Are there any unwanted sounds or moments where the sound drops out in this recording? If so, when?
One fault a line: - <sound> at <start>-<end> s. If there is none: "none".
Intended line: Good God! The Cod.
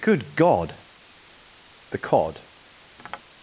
- tap at 3.0-3.2 s